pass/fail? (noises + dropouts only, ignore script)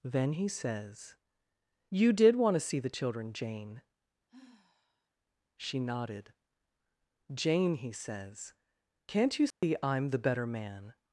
fail